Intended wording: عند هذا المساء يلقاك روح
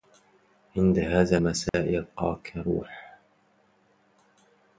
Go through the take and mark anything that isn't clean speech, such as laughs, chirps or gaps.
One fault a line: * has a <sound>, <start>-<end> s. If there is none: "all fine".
* has a dropout, 1.7-1.7 s